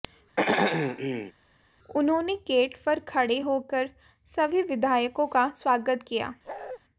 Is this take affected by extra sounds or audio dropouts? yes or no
yes